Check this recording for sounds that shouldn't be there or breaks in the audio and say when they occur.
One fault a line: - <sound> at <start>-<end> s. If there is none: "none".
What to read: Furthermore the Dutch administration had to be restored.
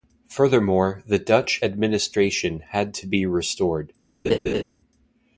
- laugh at 4.2-4.6 s